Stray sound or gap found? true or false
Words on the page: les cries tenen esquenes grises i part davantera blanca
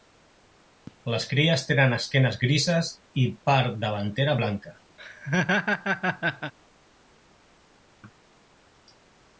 true